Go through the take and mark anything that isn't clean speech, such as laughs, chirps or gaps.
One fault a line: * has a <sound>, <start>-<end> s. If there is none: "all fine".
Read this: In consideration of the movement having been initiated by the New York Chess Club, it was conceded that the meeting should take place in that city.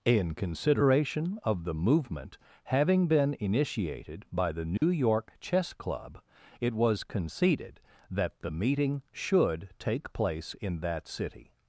* has a dropout, 4.8-4.8 s